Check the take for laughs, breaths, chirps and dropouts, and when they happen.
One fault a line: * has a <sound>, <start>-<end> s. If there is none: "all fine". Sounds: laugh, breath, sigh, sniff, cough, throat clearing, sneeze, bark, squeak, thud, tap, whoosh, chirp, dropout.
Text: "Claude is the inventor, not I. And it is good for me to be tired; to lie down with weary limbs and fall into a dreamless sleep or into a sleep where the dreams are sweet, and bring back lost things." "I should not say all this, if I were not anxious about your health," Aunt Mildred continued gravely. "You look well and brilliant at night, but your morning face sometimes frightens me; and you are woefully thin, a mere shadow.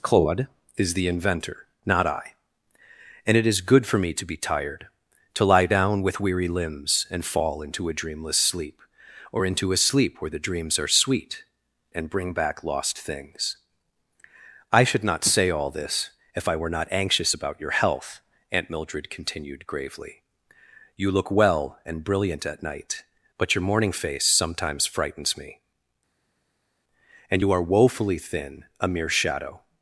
all fine